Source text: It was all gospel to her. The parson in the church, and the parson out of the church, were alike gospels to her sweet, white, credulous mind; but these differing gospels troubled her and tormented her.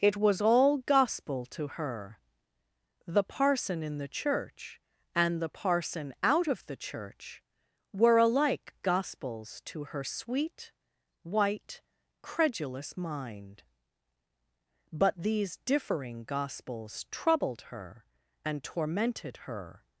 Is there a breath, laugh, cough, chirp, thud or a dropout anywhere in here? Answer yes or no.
no